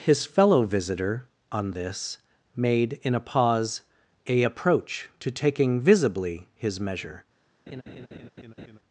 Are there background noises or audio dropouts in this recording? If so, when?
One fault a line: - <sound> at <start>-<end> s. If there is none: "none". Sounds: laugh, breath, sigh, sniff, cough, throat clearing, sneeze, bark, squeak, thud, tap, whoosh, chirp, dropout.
- laugh at 7.7-8.8 s